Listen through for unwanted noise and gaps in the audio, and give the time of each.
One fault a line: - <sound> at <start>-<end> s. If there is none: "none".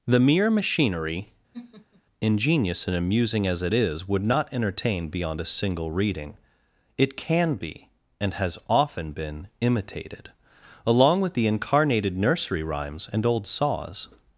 - laugh at 1.5-2.0 s